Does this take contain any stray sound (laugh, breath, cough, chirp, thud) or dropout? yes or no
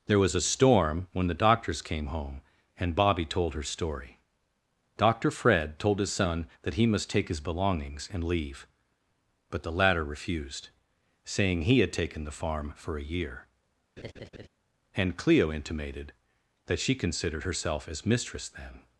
yes